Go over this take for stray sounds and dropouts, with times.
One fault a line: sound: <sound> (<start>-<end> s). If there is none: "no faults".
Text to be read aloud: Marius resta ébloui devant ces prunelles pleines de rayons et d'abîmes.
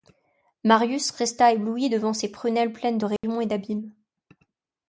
sound: dropout (3.2-3.2 s)